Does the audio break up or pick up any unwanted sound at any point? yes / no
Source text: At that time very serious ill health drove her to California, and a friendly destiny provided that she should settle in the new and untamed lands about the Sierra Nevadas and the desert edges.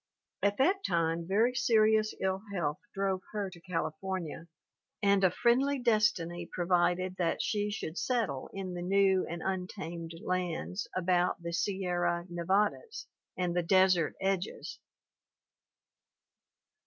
no